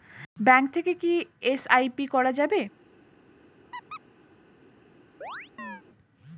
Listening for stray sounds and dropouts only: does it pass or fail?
fail